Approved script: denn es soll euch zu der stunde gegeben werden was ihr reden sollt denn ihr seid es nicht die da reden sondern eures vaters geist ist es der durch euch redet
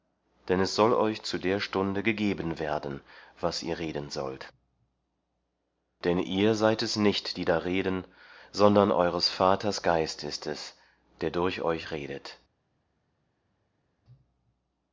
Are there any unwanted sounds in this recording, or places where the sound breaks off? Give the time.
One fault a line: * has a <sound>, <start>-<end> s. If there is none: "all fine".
all fine